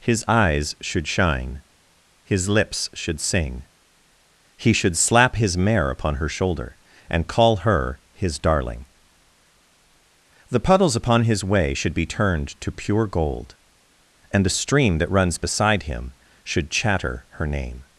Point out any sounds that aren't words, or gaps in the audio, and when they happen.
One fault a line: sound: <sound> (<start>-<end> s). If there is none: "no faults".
no faults